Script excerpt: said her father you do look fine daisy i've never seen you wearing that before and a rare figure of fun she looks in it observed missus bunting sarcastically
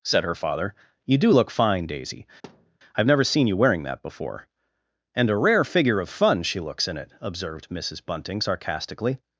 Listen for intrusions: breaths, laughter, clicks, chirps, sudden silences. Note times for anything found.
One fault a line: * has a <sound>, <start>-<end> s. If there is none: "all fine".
* has a thud, 2.4-2.8 s